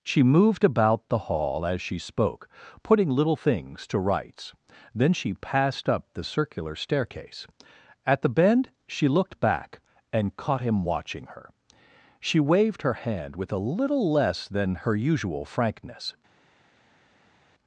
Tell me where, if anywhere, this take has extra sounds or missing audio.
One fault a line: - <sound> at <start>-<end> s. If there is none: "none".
none